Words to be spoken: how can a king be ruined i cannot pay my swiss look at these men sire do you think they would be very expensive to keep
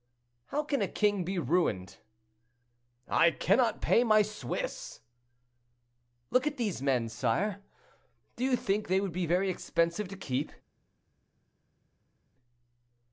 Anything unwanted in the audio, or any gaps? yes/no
no